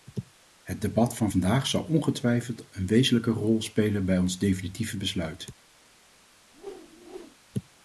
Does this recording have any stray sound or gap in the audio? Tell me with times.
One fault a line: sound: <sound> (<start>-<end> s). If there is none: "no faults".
sound: whoosh (6.5-7.4 s)